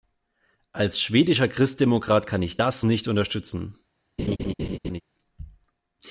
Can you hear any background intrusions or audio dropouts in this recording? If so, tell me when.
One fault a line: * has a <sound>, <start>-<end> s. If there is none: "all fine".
* has a laugh, 4.2-5.0 s